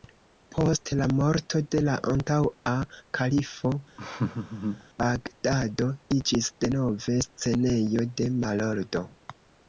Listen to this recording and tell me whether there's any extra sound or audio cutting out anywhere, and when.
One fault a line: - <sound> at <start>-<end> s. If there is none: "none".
- laugh at 4.0-4.8 s